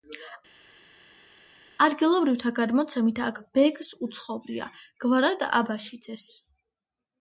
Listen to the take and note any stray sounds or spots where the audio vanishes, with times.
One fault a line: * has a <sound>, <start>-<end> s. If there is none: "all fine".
all fine